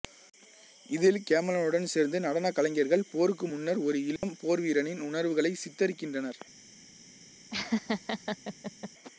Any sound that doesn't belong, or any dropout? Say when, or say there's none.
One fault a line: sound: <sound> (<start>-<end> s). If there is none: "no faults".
sound: dropout (4.2-4.2 s)
sound: laugh (7.5-8.9 s)